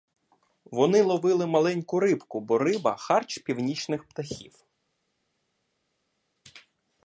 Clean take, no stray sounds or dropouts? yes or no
yes